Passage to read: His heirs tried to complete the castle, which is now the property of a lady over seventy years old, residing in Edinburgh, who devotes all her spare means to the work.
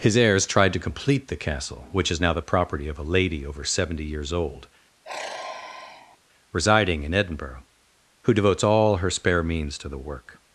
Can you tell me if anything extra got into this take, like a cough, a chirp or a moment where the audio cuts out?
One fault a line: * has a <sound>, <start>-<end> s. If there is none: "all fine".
* has a sigh, 5.0-6.2 s